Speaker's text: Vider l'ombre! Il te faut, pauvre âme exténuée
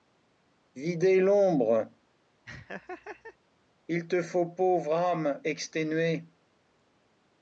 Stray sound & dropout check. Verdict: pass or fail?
fail